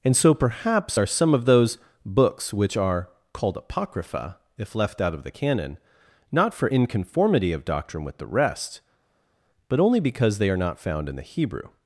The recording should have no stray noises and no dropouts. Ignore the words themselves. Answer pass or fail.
pass